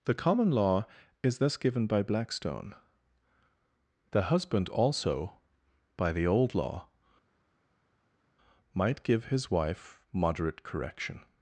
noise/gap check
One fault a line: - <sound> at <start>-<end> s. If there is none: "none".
none